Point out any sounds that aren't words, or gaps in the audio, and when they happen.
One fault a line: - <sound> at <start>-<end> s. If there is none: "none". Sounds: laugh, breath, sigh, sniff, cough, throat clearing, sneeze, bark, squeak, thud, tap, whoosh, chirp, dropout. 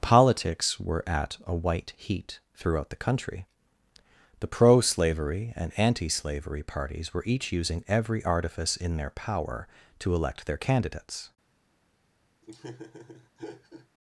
- laugh at 12.4-13.9 s